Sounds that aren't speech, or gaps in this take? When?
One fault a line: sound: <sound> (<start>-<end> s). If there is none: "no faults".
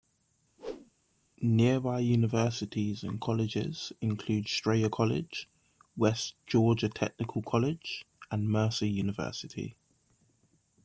sound: whoosh (0.6-0.9 s)